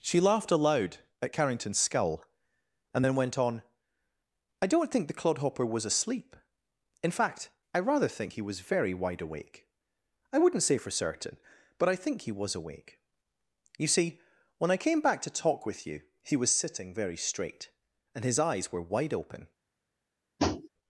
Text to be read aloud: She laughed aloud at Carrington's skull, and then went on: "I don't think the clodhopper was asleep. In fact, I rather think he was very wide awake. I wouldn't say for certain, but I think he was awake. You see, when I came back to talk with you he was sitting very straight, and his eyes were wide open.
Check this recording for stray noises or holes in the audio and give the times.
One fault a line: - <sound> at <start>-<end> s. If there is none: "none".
- tap at 20.4-20.7 s